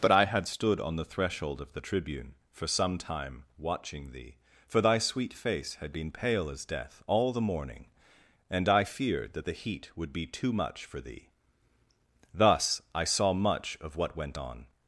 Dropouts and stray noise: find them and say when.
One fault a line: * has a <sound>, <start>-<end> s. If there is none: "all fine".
all fine